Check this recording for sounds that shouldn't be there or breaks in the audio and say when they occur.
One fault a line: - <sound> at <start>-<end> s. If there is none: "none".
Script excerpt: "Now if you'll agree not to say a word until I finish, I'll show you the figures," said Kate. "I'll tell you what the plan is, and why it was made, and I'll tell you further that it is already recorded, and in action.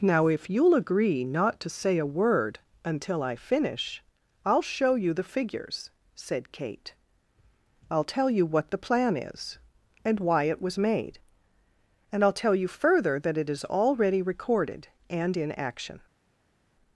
none